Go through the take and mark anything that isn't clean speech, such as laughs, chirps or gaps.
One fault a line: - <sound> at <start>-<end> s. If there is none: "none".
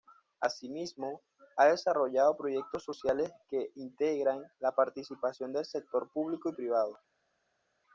none